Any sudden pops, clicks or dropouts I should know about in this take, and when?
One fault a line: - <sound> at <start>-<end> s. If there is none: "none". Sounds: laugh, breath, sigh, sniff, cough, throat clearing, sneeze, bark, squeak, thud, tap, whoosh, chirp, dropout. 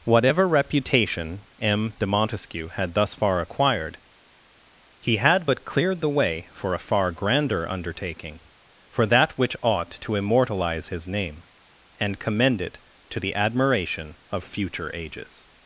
none